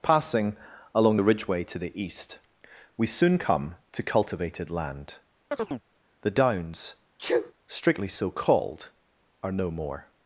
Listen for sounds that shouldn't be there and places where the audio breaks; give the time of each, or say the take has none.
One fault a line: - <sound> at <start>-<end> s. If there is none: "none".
- chirp at 5.5-5.8 s
- sneeze at 7.2-7.5 s